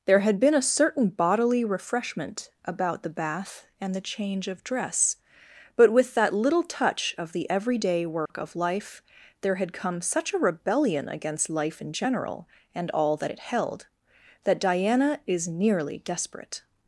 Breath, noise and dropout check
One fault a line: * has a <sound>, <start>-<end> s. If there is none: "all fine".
* has a dropout, 8.3-8.3 s